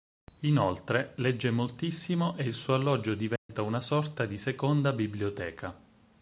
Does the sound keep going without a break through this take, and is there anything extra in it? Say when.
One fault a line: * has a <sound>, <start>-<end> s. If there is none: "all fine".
* has a dropout, 3.4-3.5 s